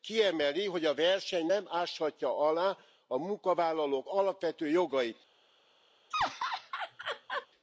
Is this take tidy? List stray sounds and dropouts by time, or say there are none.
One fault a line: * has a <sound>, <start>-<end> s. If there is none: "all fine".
* has a laugh, 6.1-7.5 s